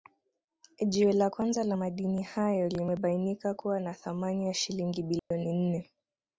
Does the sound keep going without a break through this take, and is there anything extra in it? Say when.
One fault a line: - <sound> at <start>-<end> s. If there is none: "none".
- dropout at 5.2-5.3 s